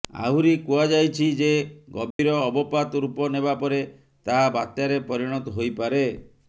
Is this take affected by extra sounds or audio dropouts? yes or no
yes